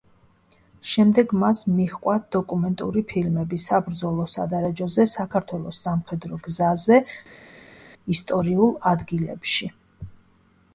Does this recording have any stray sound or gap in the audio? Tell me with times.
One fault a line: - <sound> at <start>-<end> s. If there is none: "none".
none